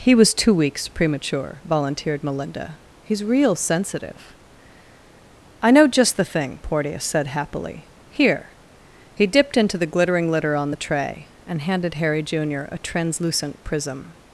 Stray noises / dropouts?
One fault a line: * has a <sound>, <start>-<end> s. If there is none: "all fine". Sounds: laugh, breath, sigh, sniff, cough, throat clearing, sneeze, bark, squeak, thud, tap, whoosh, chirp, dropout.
all fine